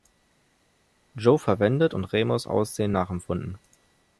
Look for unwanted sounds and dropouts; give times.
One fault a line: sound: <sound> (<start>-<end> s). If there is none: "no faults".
no faults